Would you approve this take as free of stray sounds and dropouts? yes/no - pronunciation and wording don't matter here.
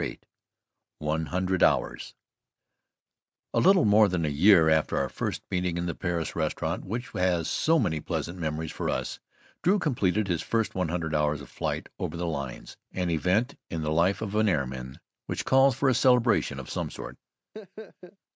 no